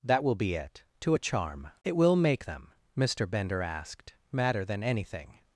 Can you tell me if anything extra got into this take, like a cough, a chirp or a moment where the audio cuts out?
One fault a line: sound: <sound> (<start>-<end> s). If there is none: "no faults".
no faults